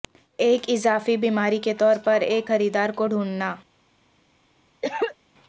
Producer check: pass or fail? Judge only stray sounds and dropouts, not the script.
fail